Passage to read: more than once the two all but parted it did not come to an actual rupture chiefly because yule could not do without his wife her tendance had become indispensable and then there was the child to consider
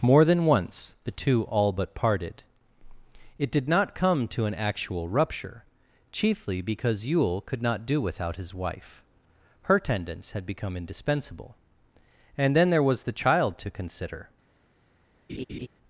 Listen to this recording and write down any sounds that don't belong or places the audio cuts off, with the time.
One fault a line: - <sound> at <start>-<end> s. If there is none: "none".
- laugh at 15.3-15.7 s